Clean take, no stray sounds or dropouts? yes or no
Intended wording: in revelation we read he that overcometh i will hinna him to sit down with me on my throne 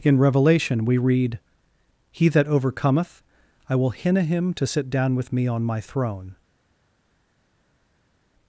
yes